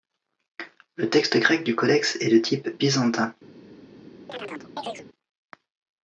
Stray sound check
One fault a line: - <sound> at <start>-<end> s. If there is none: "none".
- chirp at 4.3-5.1 s